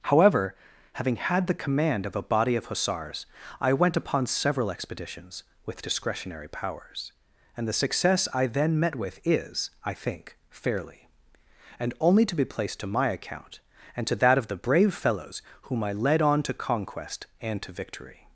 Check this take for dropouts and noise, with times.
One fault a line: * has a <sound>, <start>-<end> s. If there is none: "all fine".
all fine